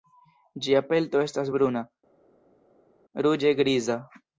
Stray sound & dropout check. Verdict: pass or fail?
pass